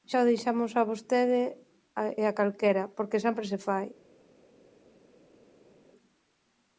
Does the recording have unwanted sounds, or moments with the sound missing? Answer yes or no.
no